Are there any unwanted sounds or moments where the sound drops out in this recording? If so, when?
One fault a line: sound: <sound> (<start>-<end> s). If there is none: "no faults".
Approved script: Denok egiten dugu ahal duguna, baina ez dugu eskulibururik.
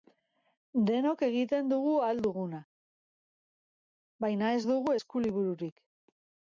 no faults